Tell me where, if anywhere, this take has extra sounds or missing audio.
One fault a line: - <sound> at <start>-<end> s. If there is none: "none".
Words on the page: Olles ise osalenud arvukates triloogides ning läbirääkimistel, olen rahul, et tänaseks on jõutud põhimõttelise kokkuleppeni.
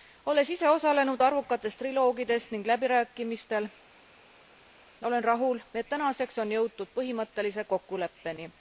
none